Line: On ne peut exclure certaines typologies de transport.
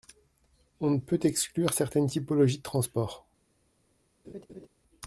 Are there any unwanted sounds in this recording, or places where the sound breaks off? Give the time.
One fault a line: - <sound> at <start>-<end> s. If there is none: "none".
- laugh at 4.2-4.7 s